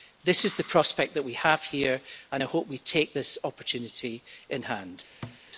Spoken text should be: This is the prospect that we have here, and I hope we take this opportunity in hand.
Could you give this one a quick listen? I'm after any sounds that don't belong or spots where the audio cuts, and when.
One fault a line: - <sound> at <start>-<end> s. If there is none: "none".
- thud at 5.2-5.4 s